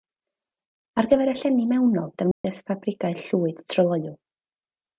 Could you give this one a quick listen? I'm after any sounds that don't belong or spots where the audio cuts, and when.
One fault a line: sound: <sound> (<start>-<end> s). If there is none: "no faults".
sound: dropout (2.3-2.4 s)